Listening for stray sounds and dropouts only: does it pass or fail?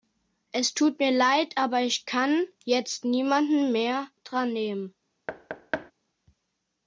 fail